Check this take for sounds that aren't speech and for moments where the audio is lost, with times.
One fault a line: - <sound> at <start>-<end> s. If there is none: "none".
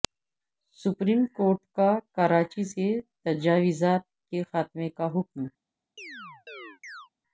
- chirp at 6.0-7.1 s